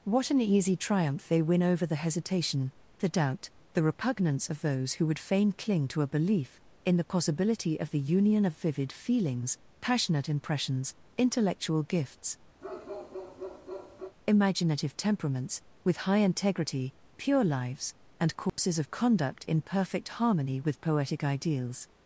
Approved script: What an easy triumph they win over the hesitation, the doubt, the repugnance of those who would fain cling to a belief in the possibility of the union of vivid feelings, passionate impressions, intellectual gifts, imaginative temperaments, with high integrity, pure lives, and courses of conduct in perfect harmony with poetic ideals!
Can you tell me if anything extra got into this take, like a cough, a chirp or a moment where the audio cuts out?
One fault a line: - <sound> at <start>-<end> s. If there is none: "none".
- bark at 12.6-14.2 s
- dropout at 18.5-18.6 s